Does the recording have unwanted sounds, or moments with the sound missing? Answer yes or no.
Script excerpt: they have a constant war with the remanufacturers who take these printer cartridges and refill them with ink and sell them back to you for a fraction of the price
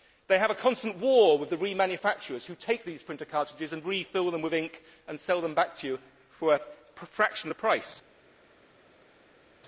no